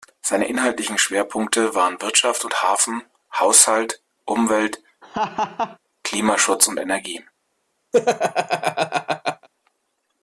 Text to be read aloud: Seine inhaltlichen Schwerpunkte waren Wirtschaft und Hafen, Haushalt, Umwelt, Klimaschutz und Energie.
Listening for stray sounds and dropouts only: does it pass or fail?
fail